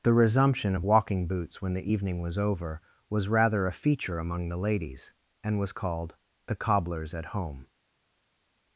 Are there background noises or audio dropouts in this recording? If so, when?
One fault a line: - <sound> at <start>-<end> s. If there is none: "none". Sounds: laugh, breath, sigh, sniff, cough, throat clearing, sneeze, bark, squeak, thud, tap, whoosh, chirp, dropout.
none